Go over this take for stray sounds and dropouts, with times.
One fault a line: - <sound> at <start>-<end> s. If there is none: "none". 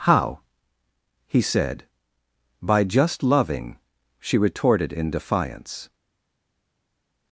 none